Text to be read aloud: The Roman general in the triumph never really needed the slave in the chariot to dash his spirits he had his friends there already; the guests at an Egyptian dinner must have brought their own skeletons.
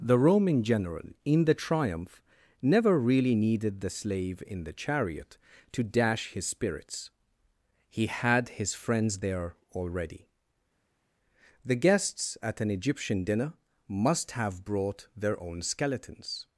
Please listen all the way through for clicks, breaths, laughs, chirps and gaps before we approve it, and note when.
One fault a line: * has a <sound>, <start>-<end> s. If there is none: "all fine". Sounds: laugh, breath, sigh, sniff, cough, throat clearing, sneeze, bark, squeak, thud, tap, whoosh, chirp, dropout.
all fine